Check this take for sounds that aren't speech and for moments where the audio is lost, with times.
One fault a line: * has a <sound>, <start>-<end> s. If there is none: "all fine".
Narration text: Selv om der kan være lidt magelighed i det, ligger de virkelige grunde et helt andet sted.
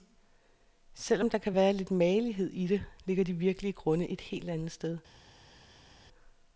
all fine